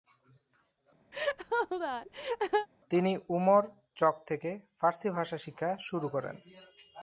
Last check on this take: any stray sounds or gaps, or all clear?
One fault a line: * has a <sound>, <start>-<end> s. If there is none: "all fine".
* has a laugh, 1.1-2.7 s